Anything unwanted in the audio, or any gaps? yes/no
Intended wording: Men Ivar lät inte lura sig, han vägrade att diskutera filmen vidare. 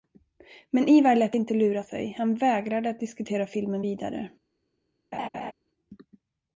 yes